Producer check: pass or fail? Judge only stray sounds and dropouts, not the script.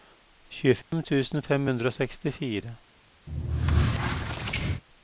fail